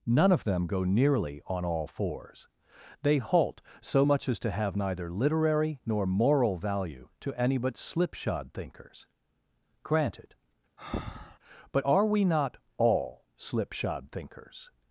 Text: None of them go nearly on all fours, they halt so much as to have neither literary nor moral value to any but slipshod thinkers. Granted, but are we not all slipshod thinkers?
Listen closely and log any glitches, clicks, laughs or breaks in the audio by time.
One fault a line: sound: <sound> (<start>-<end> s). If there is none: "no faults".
sound: breath (10.8-11.4 s)